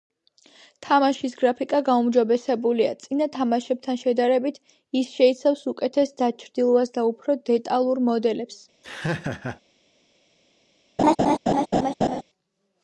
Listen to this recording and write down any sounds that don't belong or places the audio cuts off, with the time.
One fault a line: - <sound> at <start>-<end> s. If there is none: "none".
- laugh at 8.8-9.6 s
- laugh at 11.0-12.2 s